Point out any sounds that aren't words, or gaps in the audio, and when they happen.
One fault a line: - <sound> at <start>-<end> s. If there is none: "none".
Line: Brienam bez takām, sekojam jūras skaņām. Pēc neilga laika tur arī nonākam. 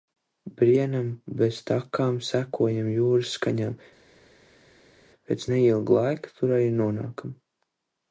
none